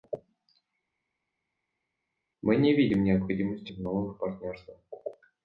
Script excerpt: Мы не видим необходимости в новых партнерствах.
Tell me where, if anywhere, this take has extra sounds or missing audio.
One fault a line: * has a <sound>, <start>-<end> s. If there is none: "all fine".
all fine